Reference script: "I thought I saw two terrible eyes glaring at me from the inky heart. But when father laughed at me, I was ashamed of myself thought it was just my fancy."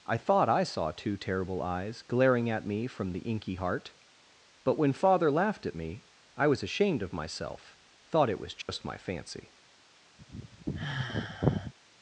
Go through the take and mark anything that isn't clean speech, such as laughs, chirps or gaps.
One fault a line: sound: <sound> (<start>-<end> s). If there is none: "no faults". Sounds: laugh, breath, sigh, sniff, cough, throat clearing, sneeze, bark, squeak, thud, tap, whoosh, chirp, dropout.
sound: dropout (8.6-8.7 s)
sound: sigh (10.2-11.7 s)